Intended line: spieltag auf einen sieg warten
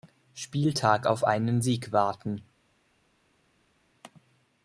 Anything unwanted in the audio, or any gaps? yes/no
no